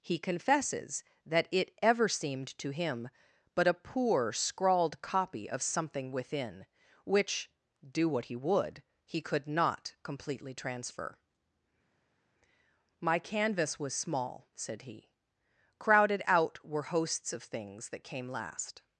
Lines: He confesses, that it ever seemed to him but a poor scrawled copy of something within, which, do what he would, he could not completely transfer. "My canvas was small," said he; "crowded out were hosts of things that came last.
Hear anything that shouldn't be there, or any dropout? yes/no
no